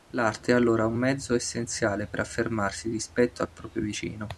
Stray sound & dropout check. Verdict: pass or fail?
pass